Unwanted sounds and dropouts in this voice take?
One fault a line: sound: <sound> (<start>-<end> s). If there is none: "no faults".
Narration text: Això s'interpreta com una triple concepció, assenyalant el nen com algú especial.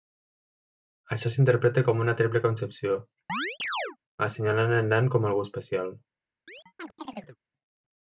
sound: chirp (3.3-4.0 s)
sound: chirp (6.5-7.4 s)